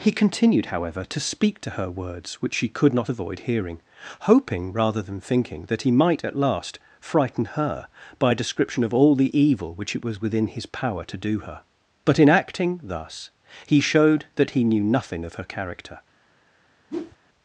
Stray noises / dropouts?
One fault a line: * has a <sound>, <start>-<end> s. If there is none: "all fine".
* has a whoosh, 16.9-17.2 s